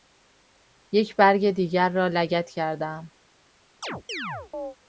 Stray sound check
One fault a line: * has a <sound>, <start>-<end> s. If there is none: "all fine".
* has a chirp, 3.8-4.8 s